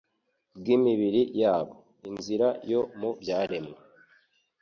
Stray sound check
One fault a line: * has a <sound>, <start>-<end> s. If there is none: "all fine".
all fine